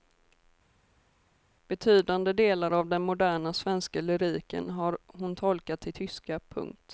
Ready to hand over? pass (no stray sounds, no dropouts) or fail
pass